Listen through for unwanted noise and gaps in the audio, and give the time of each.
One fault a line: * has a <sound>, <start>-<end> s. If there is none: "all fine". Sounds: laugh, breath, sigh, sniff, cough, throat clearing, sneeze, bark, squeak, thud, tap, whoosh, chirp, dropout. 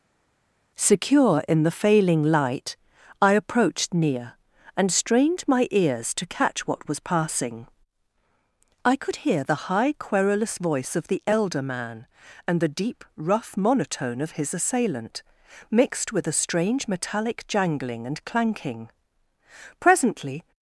all fine